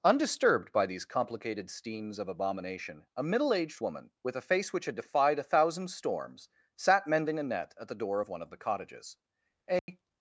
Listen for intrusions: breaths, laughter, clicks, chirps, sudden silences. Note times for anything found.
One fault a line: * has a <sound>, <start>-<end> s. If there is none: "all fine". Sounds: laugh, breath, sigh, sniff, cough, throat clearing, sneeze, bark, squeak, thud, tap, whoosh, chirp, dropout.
* has a dropout, 9.8-9.9 s